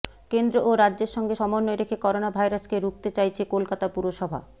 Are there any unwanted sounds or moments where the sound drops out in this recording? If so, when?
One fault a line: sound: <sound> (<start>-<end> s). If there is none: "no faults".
no faults